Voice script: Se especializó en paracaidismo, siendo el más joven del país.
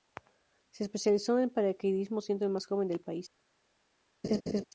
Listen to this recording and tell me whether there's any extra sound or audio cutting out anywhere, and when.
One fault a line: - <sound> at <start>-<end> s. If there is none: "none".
- laugh at 4.2-4.6 s